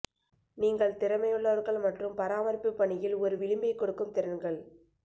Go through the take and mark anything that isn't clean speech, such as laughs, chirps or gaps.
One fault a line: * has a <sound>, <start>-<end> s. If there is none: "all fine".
all fine